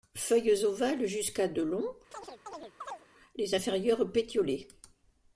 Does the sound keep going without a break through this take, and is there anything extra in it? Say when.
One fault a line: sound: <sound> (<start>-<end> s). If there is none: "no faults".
sound: chirp (2.1-3.1 s)